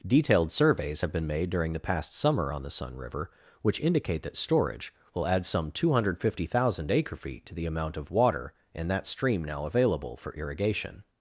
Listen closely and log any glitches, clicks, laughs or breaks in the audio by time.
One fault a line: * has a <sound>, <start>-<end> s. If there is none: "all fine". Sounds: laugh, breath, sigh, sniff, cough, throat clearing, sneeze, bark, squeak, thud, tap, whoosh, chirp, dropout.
all fine